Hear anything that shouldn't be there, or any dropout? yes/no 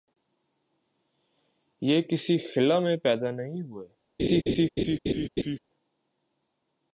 yes